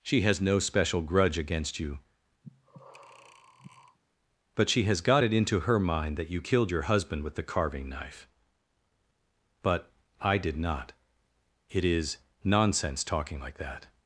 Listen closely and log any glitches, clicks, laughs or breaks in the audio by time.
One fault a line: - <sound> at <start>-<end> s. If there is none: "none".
- breath at 2.4-4.0 s